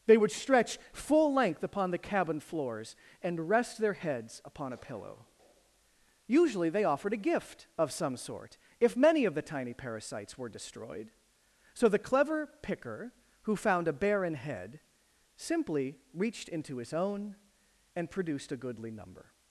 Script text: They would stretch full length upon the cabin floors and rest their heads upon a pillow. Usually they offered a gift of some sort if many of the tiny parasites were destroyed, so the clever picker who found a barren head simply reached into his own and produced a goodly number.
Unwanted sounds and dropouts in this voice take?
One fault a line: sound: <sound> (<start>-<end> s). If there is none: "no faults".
no faults